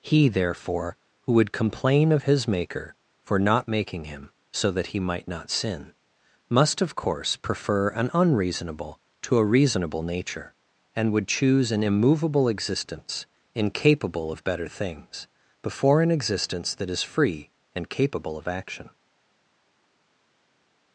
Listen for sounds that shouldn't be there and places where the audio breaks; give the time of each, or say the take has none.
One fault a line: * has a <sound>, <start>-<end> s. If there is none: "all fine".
all fine